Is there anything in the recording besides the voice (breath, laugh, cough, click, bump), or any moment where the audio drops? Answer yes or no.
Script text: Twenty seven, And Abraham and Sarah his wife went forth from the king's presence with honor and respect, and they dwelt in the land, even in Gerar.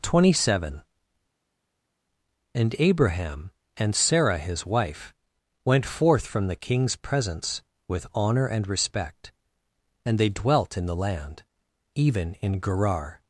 no